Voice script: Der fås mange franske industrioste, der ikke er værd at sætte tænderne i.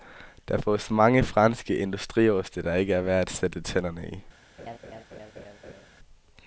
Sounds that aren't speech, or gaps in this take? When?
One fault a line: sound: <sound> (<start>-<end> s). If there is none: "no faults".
sound: laugh (4.6-5.9 s)